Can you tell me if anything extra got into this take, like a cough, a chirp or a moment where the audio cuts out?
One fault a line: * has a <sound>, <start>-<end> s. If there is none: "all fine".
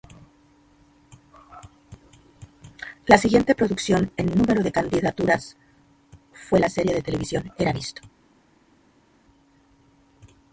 all fine